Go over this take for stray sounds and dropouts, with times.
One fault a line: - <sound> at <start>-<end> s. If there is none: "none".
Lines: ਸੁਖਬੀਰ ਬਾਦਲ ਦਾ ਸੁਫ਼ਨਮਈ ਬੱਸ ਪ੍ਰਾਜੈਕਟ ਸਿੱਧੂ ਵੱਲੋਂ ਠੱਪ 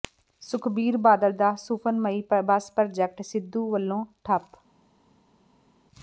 none